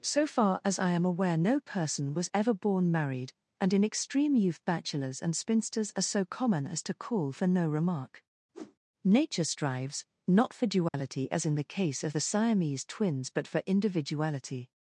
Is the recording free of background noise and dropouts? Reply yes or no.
no